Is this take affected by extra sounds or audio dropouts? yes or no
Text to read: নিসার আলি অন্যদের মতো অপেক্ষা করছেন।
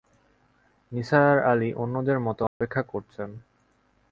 yes